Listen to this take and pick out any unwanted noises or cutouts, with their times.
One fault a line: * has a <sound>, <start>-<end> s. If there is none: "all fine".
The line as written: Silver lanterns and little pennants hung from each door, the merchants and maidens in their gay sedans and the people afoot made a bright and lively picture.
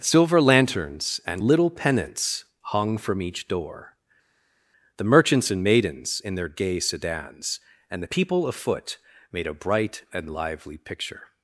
all fine